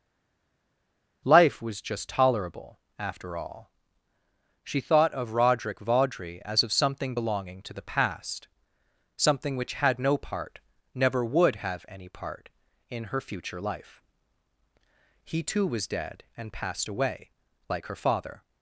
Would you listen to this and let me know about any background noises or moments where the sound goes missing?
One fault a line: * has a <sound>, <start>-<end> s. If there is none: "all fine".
all fine